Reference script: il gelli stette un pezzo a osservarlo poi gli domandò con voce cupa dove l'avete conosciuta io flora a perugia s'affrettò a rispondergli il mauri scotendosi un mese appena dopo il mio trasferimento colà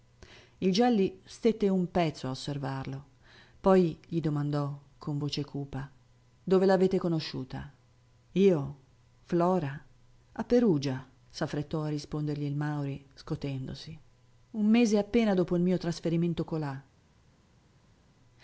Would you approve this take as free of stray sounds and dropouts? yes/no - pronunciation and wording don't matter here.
yes